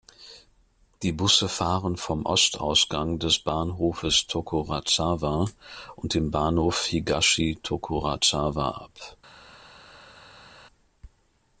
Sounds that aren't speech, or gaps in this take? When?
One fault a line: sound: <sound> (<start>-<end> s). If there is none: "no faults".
no faults